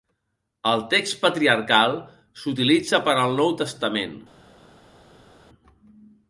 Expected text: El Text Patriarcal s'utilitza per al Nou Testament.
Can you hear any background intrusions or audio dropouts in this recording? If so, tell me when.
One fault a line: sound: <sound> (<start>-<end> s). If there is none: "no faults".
no faults